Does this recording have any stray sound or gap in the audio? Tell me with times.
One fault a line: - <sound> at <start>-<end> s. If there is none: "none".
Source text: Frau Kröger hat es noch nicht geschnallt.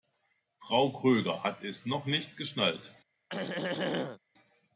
- throat clearing at 3.3-4.2 s